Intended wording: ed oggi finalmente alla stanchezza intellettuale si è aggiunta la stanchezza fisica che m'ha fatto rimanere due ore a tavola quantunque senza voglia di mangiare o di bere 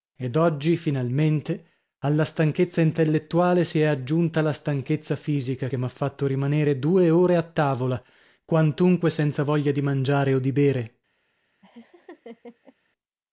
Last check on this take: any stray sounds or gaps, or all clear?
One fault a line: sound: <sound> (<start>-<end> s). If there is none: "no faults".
sound: laugh (11.6-12.8 s)